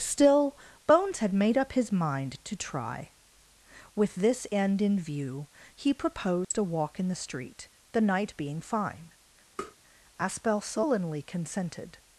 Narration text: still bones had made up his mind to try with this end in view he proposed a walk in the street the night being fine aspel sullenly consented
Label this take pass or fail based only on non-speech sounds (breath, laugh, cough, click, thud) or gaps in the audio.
fail